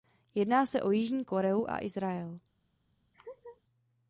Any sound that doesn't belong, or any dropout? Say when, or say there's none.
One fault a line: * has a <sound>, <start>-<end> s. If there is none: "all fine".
* has a laugh, 3.1-3.6 s